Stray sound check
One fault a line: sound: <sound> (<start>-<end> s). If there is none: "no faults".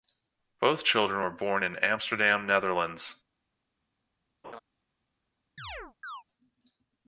sound: laugh (4.4-4.6 s)
sound: chirp (5.6-6.2 s)